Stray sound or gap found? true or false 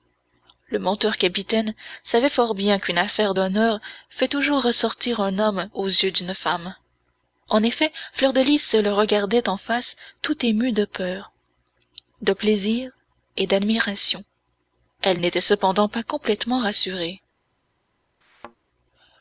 true